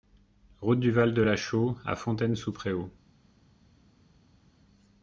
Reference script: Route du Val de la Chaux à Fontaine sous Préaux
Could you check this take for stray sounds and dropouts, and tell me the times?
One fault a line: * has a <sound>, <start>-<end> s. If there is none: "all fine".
all fine